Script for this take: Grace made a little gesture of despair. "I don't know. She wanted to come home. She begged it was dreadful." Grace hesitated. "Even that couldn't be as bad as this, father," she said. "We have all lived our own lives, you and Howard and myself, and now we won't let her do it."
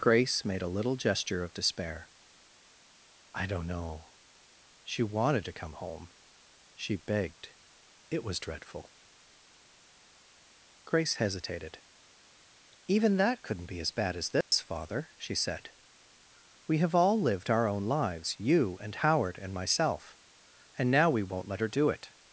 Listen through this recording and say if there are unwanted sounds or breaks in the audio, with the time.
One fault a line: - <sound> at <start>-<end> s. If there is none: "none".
- dropout at 14.4-14.5 s